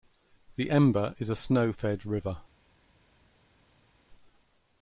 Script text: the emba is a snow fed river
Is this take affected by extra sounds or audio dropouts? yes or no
no